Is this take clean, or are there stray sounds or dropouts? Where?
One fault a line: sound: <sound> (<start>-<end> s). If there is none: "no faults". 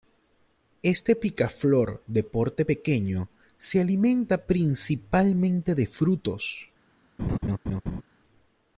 sound: laugh (7.2-8.0 s)